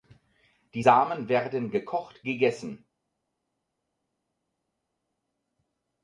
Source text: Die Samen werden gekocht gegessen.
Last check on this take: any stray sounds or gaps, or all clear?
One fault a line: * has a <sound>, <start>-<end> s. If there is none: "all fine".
all fine